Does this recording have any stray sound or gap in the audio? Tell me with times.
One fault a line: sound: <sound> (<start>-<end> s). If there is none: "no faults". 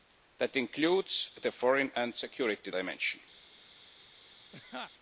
sound: laugh (4.5-4.9 s)